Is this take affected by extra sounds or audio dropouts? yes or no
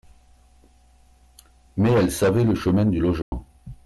yes